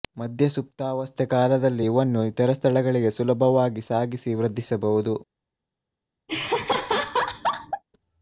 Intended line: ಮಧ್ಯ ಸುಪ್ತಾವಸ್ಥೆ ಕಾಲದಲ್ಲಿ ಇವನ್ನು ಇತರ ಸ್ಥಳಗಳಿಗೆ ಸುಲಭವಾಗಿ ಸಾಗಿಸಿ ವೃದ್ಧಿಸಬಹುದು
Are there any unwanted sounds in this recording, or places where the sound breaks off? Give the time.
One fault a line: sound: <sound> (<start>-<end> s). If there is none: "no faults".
sound: laugh (6.3-7.8 s)